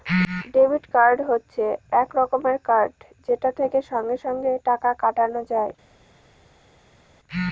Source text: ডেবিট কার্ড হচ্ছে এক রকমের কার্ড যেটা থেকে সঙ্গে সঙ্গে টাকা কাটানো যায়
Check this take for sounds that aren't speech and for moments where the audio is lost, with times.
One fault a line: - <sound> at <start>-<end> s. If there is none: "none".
none